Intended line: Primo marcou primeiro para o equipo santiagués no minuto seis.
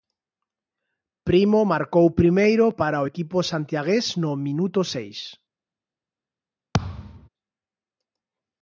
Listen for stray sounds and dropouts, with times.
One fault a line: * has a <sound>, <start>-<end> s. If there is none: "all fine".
* has a thud, 6.7-7.3 s